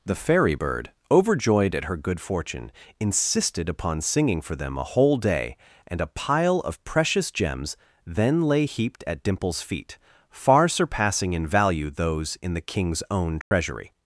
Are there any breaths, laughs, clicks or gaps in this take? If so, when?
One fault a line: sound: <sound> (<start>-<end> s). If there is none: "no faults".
sound: dropout (13.4-13.5 s)